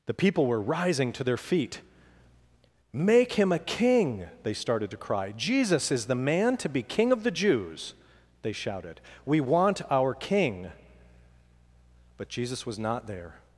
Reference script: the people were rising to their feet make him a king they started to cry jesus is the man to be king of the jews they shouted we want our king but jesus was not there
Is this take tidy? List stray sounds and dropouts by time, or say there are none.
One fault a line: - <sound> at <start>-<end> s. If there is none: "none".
none